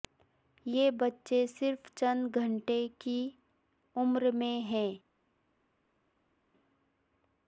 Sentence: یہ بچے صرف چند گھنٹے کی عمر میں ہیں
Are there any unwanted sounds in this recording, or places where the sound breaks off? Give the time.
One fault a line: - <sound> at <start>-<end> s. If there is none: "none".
none